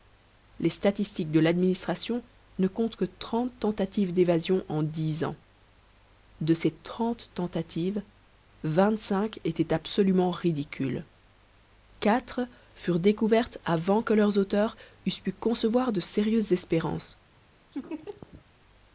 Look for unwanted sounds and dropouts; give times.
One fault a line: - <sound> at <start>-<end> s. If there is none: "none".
- laugh at 17.7-18.4 s